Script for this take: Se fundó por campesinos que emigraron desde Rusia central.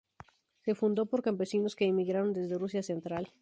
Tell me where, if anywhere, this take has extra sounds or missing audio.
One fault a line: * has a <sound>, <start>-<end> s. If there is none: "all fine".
all fine